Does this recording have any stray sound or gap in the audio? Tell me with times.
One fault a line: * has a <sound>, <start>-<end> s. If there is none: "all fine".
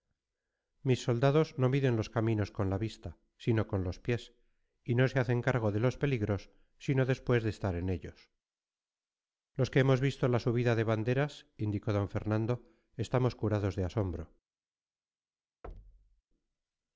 * has a thud, 15.6-16.2 s